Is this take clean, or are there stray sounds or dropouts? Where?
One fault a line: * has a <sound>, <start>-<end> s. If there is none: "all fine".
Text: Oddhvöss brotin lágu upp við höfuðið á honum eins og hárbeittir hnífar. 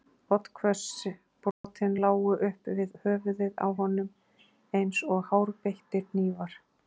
* has a dropout, 1.5-1.6 s